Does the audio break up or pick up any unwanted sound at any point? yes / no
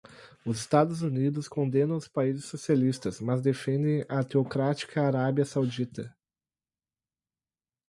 no